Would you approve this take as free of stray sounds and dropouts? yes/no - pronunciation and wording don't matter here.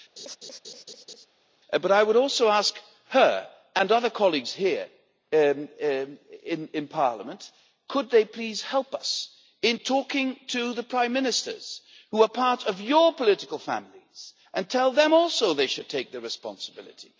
no